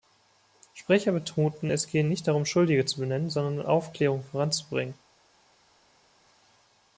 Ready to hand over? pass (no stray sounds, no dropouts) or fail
pass